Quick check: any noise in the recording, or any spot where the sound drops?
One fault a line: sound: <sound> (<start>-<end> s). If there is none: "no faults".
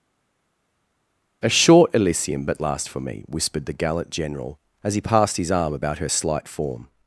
no faults